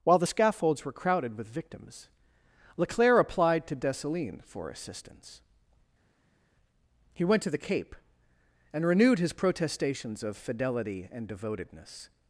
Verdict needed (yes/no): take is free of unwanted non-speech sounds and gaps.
yes